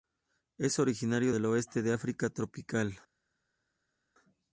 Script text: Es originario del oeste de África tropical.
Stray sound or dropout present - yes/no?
no